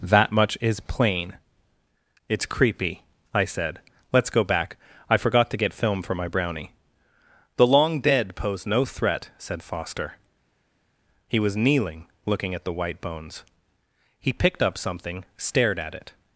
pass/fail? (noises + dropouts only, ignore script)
pass